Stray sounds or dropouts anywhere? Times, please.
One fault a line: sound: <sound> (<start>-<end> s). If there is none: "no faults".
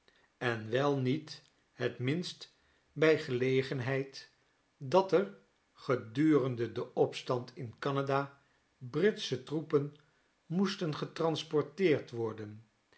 no faults